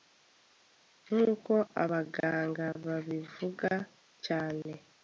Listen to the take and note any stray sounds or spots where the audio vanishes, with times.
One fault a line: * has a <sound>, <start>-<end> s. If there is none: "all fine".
all fine